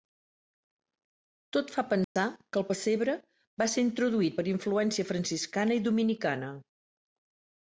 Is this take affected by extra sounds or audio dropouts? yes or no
yes